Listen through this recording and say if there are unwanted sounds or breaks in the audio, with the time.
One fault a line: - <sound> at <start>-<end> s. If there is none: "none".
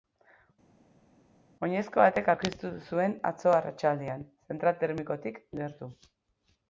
none